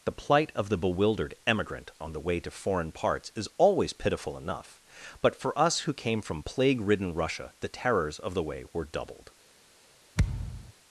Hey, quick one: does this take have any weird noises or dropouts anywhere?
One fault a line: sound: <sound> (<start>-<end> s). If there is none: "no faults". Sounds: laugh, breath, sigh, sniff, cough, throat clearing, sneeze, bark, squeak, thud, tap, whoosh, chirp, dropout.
sound: thud (10.2-10.7 s)